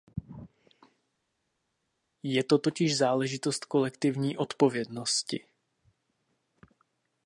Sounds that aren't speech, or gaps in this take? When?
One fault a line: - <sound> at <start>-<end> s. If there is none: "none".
none